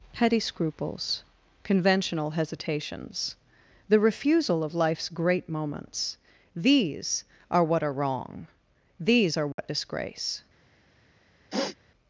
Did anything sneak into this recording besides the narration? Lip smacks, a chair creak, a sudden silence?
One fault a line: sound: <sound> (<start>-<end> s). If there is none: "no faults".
sound: dropout (9.5-9.6 s)
sound: sniff (11.5-11.8 s)